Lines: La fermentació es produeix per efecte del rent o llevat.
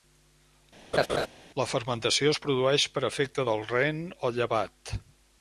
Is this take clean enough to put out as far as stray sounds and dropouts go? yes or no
no